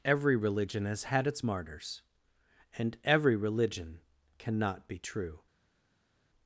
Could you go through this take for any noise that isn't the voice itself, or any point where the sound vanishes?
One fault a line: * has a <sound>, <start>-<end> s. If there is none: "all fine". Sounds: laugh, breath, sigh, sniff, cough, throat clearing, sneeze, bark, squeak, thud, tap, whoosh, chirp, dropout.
all fine